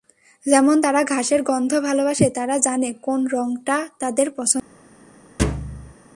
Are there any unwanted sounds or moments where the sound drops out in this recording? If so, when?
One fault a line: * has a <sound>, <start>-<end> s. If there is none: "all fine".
* has a thud, 5.4-5.9 s